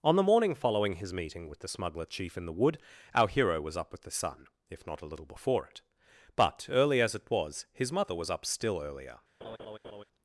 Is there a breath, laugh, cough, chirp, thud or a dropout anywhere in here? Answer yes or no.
yes